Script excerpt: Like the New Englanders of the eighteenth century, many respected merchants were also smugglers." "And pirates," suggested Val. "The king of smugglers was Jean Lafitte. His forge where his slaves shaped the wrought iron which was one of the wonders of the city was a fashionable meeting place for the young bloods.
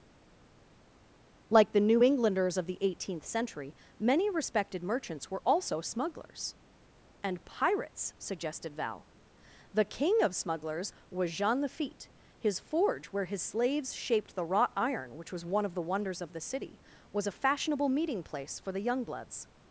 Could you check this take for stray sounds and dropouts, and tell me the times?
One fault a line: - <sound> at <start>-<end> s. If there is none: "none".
none